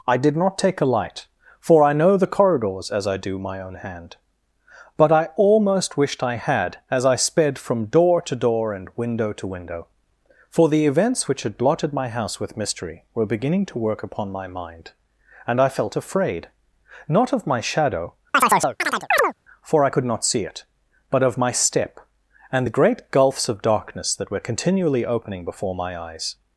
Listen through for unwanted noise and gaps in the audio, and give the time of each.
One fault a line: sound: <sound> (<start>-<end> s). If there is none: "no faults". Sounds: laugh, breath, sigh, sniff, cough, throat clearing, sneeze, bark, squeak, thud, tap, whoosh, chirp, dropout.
sound: chirp (18.3-19.3 s)